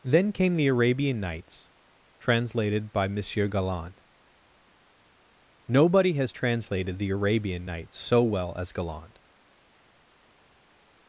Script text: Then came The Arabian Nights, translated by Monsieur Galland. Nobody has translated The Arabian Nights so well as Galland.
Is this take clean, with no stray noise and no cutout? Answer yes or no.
yes